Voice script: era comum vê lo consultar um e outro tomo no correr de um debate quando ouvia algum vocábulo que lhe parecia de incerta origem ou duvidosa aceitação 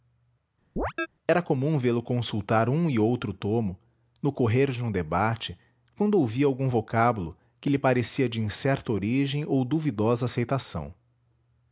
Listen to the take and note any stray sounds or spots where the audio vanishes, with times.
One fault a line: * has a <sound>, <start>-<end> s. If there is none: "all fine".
* has a chirp, 0.8-1.1 s